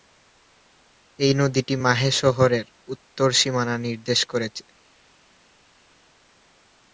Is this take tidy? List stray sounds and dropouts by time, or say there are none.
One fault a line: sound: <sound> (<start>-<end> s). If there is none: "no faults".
no faults